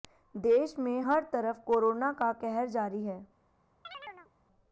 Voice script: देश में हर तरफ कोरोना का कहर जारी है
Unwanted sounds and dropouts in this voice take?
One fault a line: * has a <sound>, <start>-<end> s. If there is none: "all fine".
* has a chirp, 3.8-4.3 s